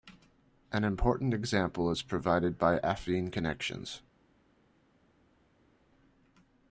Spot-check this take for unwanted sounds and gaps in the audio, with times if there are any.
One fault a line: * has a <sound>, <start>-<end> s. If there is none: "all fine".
all fine